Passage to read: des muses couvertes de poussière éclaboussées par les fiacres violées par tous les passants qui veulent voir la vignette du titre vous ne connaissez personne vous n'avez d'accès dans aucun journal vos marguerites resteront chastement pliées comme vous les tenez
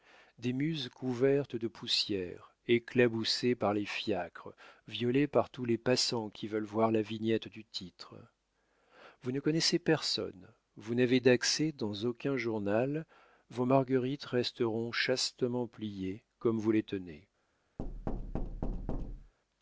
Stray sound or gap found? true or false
true